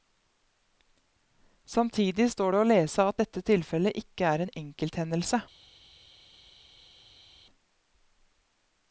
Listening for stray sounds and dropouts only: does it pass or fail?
pass